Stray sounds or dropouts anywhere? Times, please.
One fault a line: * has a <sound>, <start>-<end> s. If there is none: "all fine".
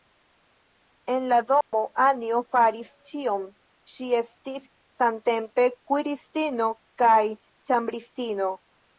* has a dropout, 1.6-1.7 s